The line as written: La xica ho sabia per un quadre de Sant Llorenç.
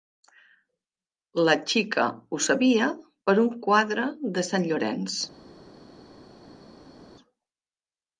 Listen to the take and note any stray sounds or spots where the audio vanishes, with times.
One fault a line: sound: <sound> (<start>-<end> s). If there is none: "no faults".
no faults